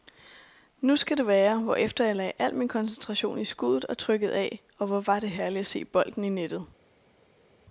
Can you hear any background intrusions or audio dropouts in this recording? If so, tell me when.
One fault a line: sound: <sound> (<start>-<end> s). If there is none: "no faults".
no faults